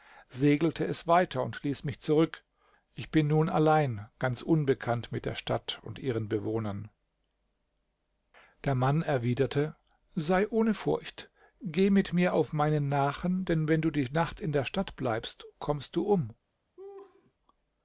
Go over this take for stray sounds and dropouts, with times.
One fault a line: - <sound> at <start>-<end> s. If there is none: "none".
- laugh at 16.8-17.3 s